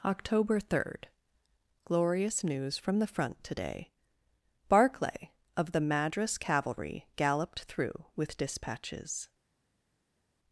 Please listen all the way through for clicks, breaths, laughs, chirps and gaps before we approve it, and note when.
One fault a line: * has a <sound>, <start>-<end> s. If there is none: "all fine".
all fine